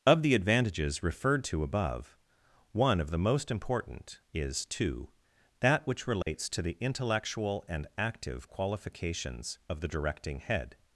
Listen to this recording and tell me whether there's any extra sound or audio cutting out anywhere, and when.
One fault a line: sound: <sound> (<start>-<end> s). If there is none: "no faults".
sound: dropout (6.2-6.3 s)